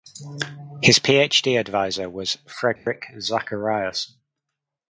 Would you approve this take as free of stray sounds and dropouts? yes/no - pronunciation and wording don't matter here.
no